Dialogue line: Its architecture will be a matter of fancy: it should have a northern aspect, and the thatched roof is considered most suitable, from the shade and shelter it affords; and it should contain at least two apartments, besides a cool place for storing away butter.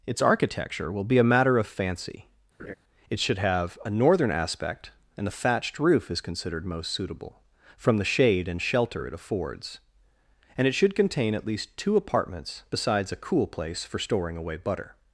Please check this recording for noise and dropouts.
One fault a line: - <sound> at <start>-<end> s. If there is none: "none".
- laugh at 2.6-2.7 s